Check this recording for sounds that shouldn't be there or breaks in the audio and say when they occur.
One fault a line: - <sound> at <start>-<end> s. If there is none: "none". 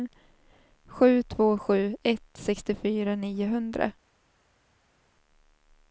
none